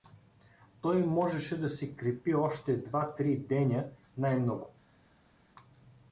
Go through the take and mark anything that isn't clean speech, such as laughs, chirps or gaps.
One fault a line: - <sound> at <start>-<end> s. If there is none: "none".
none